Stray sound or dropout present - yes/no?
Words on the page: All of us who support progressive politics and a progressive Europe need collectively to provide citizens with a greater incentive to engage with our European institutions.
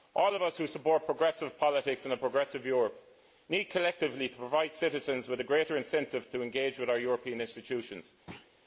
yes